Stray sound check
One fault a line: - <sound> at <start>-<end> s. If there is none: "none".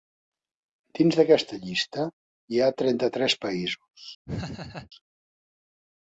- laugh at 4.3-4.9 s